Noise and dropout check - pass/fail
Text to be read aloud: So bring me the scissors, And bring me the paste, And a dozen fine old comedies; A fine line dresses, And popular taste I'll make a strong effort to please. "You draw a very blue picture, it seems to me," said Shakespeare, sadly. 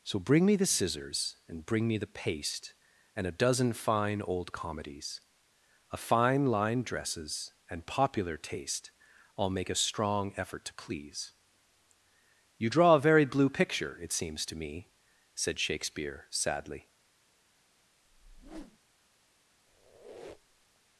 fail